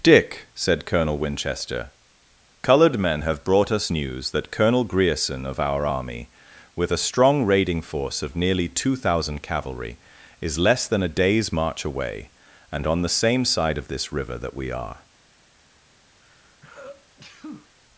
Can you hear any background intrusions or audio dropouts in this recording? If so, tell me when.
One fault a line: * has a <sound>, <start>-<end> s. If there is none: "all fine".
* has a sneeze, 16.2-17.7 s